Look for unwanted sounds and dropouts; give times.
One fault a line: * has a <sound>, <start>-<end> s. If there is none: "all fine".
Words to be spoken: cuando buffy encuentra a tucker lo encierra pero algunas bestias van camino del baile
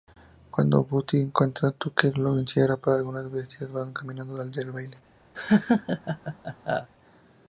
* has a laugh, 5.3-6.9 s